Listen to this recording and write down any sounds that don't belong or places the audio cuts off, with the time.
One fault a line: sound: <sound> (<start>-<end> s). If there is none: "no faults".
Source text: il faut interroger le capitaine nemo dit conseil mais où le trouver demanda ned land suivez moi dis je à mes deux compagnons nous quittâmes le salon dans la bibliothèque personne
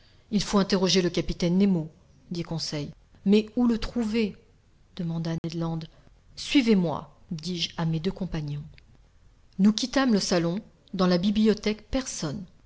sound: dropout (5.4-5.4 s)